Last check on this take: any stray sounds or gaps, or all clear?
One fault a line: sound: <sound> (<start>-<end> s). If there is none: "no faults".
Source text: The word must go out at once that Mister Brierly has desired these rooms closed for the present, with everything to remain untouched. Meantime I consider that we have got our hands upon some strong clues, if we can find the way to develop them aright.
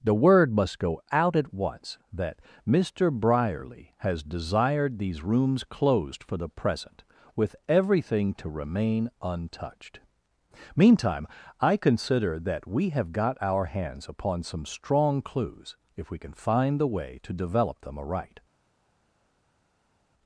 no faults